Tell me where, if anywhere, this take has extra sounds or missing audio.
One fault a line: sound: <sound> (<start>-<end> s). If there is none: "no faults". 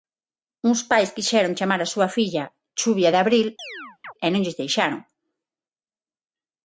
sound: chirp (3.6-4.1 s)